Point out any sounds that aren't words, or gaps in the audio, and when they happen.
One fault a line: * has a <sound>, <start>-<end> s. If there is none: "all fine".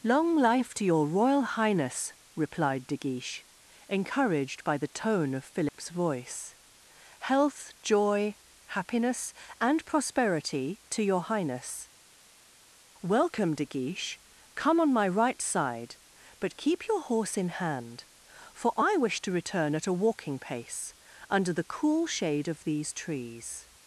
* has a dropout, 5.7-5.7 s